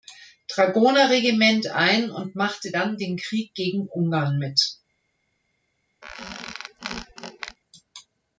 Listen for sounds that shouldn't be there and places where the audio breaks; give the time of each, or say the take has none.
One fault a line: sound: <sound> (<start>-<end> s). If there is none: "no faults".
sound: squeak (6.0-7.6 s)